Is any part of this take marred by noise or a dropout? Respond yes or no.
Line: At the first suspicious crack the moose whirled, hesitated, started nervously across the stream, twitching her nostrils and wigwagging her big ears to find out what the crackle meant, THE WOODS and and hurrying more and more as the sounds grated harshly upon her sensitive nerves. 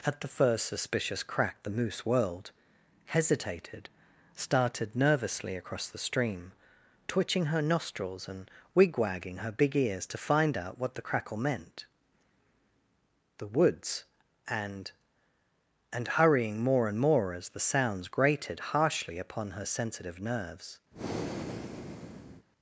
yes